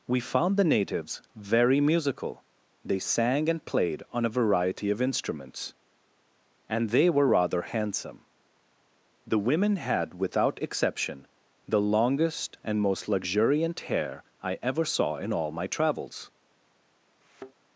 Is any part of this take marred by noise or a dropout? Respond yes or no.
yes